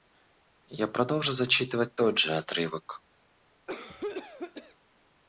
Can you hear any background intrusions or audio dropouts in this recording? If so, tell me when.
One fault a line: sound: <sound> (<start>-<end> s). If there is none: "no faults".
sound: cough (3.7-4.8 s)